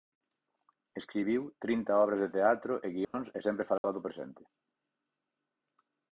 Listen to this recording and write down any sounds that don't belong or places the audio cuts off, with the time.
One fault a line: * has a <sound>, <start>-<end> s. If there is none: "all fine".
* has a dropout, 3.0-3.1 s
* has a dropout, 3.8-3.8 s